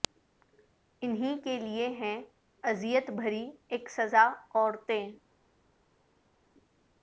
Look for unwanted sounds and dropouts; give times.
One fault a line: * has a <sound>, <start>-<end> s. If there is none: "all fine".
all fine